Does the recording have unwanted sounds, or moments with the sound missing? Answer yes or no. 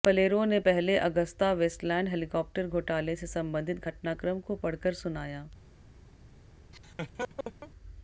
yes